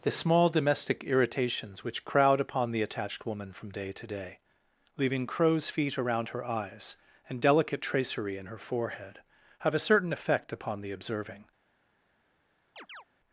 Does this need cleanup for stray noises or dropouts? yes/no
yes